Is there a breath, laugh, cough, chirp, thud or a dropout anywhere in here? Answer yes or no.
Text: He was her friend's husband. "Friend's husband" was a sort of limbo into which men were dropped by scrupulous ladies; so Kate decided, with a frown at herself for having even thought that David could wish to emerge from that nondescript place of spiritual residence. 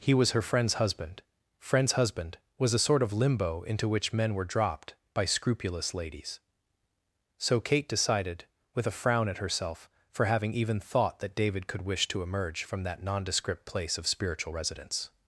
no